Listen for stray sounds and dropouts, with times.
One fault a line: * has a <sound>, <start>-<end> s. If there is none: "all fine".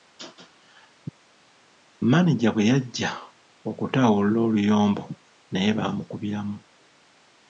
all fine